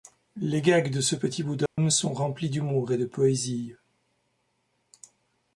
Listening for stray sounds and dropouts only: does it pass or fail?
fail